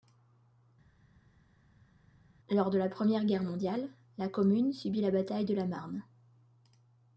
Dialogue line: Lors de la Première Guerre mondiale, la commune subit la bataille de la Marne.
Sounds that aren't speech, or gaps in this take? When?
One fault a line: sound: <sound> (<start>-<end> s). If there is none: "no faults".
no faults